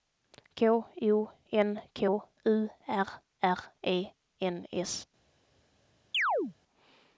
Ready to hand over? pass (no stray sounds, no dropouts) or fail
fail